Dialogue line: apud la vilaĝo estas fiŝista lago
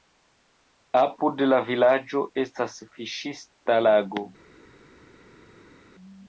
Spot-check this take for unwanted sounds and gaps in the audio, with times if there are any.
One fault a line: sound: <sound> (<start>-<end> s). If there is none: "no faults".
no faults